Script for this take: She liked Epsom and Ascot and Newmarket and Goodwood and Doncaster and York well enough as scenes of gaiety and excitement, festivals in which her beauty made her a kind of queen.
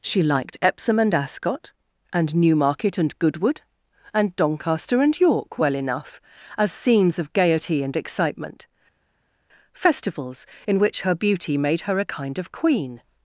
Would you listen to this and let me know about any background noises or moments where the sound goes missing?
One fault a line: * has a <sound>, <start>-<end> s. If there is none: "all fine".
all fine